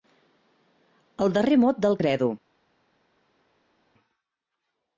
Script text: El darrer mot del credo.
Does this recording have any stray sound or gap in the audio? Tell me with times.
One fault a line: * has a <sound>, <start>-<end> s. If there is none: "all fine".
all fine